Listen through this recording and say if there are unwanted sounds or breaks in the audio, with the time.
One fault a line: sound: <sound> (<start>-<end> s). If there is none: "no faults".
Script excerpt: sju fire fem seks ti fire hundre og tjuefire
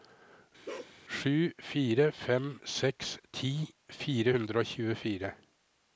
sound: bark (0.7-1.0 s)